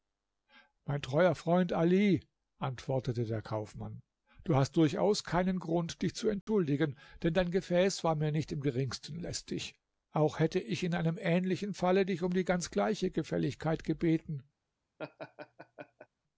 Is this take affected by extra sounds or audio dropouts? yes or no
yes